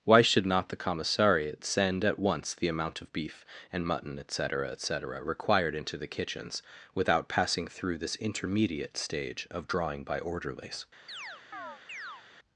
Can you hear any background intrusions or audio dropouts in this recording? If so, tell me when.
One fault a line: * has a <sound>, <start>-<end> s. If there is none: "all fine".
* has a chirp, 11.1-12.2 s